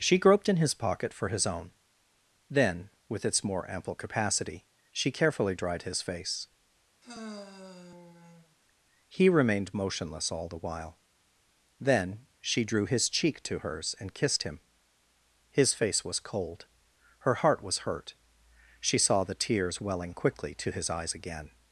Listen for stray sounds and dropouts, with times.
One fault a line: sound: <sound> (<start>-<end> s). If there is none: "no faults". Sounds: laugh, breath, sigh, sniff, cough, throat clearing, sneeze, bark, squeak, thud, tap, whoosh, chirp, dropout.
sound: sigh (7.0-8.6 s)